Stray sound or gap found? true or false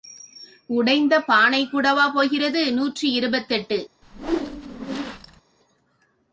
true